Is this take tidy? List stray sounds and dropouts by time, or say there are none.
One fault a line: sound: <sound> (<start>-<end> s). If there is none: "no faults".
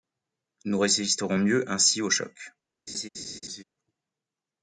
sound: laugh (2.9-3.6 s)